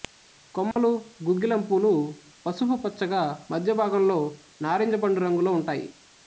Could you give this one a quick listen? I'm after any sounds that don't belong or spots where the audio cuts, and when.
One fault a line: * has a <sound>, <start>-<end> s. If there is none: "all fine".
* has a dropout, 0.7-0.8 s